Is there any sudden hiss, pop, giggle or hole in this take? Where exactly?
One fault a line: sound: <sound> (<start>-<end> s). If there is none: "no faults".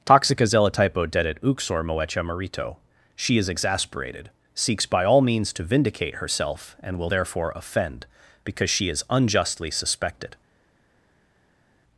no faults